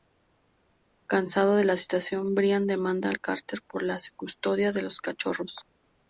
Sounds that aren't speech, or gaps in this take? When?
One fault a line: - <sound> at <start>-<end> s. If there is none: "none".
none